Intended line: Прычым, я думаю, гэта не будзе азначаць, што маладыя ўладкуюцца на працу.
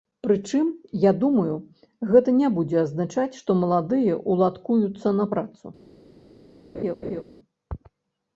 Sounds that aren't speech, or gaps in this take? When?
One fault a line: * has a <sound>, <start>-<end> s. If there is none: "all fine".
* has a laugh, 6.7-7.2 s